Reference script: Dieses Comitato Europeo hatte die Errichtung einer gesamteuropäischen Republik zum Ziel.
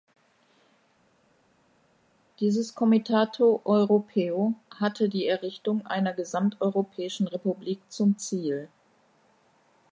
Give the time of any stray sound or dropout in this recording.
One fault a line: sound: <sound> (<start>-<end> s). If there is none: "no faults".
no faults